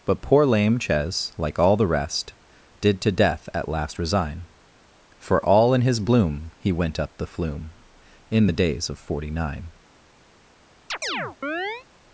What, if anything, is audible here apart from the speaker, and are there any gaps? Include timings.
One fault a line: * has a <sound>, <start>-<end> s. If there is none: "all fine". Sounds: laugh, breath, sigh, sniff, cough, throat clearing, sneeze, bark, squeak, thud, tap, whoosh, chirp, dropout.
* has a chirp, 10.9-11.9 s